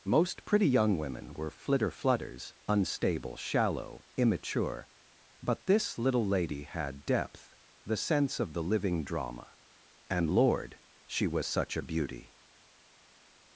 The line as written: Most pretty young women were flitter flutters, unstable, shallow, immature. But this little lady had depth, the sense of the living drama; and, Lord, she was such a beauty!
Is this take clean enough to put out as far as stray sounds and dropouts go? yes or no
yes